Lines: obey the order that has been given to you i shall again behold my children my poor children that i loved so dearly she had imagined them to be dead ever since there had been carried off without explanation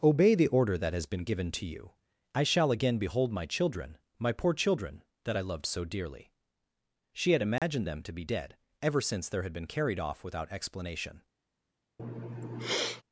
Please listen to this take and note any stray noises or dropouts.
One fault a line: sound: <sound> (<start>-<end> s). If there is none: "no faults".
sound: dropout (7.6-7.6 s)
sound: sniff (12.0-13.0 s)